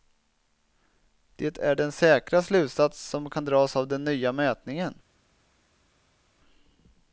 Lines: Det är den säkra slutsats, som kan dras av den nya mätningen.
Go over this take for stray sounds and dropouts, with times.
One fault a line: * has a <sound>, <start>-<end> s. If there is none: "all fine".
all fine